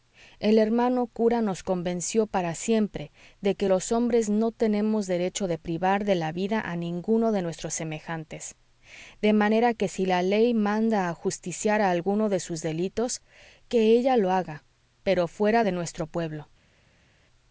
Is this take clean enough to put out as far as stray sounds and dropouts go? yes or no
yes